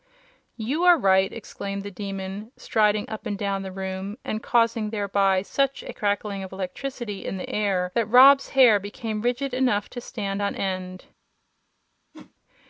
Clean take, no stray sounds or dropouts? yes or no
no